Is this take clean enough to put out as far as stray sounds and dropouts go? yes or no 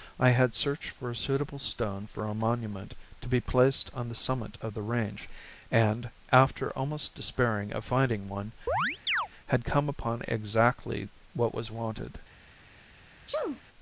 no